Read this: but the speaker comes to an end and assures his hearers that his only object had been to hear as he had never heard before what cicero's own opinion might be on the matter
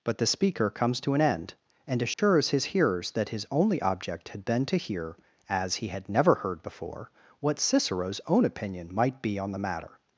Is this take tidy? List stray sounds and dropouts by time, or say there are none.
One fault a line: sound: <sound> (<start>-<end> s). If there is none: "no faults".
sound: dropout (2.1-2.2 s)